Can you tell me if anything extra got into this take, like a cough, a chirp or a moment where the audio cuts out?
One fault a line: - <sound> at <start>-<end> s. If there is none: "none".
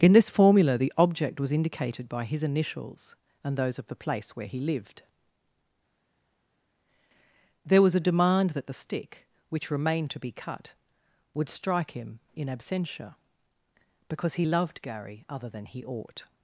none